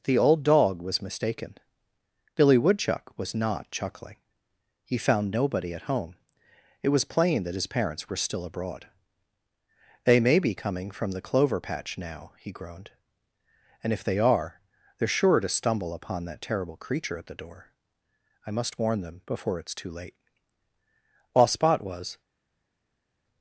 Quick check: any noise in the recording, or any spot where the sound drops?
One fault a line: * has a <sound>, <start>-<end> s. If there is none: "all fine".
all fine